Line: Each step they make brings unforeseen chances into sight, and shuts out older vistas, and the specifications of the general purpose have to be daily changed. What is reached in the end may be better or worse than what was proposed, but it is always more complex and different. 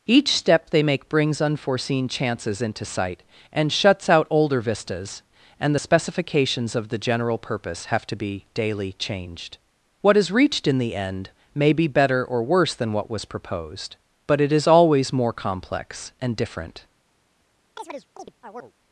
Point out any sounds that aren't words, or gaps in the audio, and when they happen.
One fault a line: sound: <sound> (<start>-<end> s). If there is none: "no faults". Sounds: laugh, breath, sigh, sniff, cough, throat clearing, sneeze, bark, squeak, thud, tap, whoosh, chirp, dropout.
sound: chirp (17.8-18.7 s)